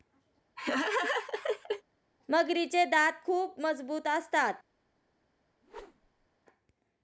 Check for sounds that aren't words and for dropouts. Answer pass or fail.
fail